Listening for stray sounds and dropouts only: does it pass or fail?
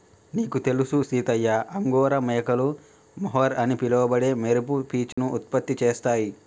fail